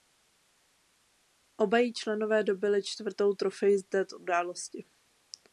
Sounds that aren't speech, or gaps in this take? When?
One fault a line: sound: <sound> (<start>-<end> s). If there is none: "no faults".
no faults